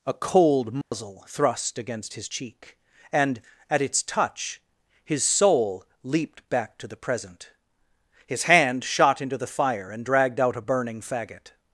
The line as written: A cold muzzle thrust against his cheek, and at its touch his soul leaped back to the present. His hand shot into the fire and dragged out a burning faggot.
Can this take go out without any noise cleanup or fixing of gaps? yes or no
no